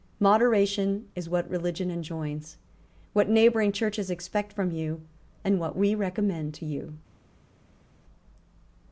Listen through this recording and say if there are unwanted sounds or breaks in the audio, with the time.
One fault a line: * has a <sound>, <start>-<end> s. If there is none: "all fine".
all fine